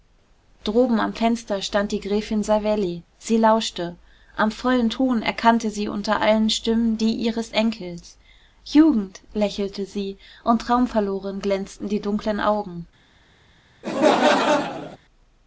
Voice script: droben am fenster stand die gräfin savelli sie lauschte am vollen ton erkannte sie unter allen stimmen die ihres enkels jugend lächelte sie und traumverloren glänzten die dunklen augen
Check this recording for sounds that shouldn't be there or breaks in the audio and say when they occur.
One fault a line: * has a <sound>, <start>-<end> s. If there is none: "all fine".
* has a laugh, 13.8-15.0 s